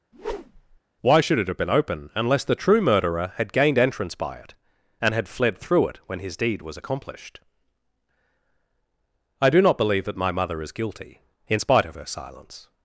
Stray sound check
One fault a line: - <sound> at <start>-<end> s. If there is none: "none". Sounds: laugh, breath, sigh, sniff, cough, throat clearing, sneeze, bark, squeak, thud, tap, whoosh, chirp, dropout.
- whoosh at 0.1-0.8 s